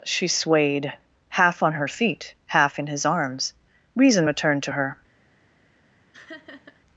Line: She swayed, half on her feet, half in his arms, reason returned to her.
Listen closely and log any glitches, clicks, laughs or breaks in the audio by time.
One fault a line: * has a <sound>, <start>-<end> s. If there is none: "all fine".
* has a laugh, 6.1-6.8 s